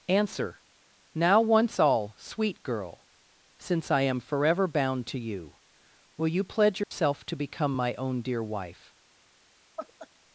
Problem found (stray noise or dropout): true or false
true